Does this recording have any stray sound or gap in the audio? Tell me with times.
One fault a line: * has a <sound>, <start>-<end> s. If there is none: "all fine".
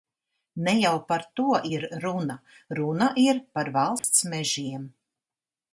* has a dropout, 4.0-4.0 s